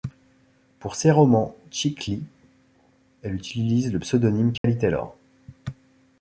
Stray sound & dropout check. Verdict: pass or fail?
fail